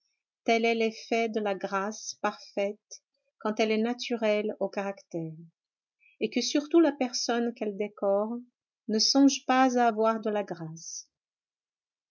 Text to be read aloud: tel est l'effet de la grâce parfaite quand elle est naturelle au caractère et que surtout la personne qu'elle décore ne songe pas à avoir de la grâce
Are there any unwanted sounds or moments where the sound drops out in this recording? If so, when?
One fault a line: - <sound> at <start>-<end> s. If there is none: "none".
none